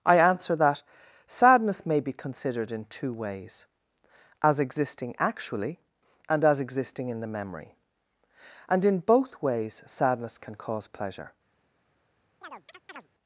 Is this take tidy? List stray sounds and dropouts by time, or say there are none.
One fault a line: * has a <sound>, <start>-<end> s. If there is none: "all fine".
* has a chirp, 12.4-13.1 s